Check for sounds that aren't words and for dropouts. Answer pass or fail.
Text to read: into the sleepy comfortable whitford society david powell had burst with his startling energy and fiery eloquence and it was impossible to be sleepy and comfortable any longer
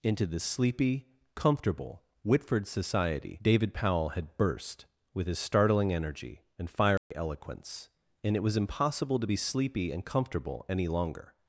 fail